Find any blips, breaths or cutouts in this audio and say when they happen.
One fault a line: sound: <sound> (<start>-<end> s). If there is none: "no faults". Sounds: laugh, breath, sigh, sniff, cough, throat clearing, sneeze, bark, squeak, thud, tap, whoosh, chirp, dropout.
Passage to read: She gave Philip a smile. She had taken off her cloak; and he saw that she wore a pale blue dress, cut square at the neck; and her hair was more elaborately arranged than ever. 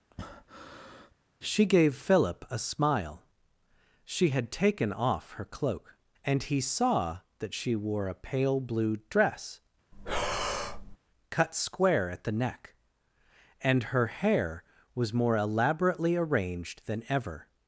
sound: breath (0.1-1.1 s)
sound: breath (9.9-11.0 s)